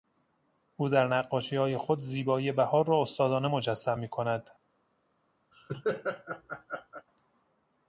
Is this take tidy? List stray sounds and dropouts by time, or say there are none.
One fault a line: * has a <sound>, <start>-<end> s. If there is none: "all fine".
* has a laugh, 5.5-7.1 s